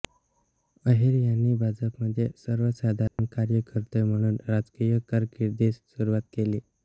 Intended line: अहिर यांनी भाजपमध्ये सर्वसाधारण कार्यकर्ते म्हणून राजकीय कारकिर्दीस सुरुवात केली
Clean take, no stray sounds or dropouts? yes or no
no